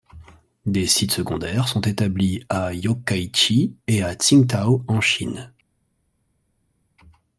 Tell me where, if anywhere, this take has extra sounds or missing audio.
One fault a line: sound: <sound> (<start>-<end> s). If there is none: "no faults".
no faults